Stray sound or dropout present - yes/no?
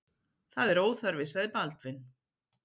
no